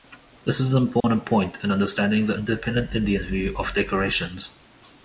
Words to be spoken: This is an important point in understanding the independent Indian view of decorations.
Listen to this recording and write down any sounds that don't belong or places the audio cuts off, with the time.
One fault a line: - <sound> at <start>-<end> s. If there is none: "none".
- dropout at 1.0-1.0 s